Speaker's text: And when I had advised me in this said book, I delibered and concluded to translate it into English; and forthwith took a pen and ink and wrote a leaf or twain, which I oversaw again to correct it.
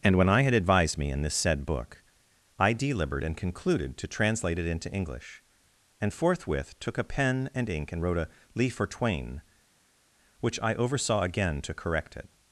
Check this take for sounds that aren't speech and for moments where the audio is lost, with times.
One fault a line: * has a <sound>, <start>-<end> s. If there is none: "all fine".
all fine